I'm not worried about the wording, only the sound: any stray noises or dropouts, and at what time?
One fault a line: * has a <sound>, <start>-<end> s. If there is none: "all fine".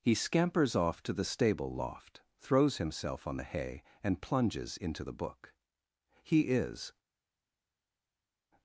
all fine